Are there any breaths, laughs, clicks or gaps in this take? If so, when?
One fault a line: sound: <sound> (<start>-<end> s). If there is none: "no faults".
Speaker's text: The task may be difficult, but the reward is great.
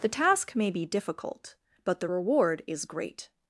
no faults